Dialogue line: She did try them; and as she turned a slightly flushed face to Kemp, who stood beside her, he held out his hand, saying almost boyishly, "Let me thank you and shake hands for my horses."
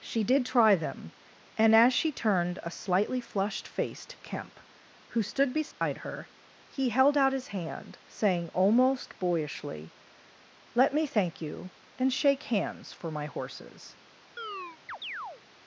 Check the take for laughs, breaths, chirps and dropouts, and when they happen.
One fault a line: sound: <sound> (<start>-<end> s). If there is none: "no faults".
sound: dropout (5.7-5.8 s)
sound: chirp (14.4-15.4 s)